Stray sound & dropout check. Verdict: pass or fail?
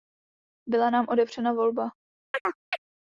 fail